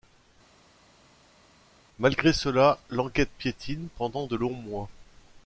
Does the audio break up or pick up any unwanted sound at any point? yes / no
no